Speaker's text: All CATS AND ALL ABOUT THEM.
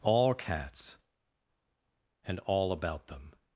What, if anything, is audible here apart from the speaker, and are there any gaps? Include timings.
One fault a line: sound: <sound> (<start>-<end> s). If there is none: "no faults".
no faults